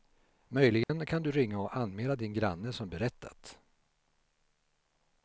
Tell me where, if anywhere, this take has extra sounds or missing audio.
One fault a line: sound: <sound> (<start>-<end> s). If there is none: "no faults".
sound: dropout (0.8-0.9 s)